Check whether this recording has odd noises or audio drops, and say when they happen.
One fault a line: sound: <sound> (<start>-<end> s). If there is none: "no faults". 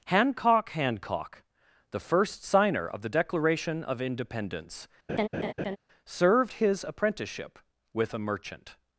sound: laugh (5.1-5.8 s)